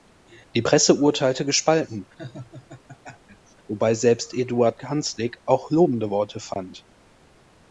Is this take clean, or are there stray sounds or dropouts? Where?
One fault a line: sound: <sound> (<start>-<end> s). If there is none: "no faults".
sound: laugh (2.2-3.5 s)